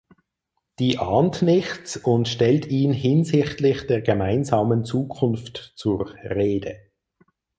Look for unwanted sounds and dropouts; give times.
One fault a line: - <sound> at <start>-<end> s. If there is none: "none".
none